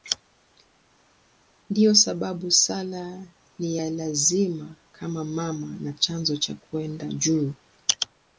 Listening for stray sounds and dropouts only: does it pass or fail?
pass